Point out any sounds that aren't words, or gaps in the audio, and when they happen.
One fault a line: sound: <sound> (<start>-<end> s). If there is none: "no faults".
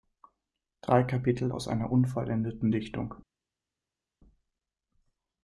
no faults